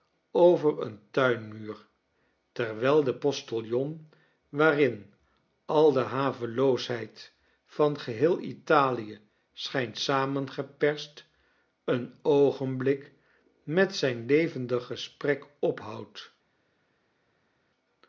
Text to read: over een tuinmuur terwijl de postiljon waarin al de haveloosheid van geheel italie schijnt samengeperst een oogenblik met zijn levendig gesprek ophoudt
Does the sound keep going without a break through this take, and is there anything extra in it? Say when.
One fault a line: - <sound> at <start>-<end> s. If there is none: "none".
none